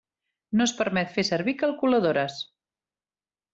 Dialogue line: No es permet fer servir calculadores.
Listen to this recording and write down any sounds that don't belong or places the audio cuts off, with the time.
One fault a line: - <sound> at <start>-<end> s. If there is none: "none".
none